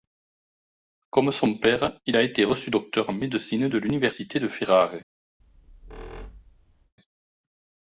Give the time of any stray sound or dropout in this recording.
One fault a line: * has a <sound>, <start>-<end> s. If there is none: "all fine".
* has a squeak, 5.4-6.9 s